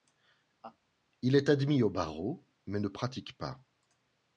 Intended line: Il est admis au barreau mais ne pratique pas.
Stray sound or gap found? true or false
true